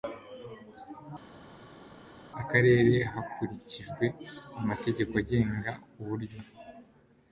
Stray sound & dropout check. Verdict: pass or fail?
pass